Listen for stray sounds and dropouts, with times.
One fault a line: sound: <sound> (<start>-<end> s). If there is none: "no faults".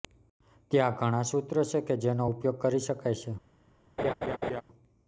sound: laugh (4.0-4.6 s)